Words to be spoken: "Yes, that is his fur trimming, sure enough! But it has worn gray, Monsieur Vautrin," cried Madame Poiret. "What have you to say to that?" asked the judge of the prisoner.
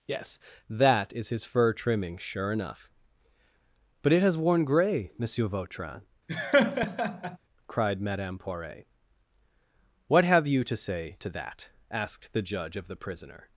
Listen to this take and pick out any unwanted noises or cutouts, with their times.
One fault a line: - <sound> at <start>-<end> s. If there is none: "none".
- laugh at 6.3-7.4 s